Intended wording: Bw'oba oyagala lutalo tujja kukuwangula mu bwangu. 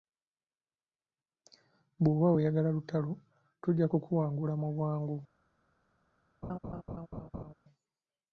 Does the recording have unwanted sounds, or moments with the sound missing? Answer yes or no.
yes